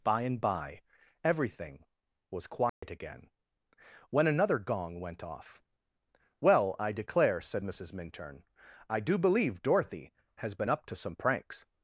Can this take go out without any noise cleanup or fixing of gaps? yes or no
no